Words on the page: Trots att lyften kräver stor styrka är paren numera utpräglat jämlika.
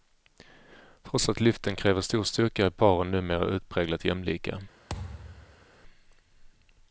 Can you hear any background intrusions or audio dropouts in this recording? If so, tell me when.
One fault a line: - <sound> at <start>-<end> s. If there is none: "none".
- thud at 4.9-5.7 s